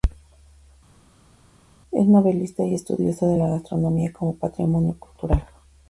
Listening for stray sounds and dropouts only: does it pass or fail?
pass